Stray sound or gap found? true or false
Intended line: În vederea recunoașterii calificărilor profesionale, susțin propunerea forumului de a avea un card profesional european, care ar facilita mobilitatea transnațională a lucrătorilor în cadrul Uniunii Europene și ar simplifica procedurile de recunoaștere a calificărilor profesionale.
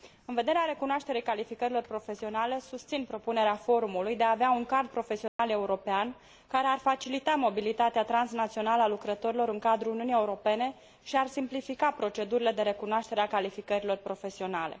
true